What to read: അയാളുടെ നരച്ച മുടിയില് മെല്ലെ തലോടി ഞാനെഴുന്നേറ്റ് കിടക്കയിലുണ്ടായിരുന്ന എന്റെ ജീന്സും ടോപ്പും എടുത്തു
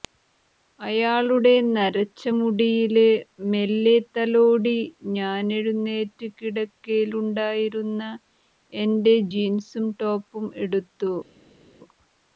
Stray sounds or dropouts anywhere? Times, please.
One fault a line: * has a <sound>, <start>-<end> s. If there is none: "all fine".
all fine